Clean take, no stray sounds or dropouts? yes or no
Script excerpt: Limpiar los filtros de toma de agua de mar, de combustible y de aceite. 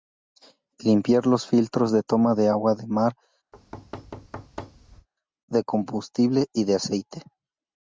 no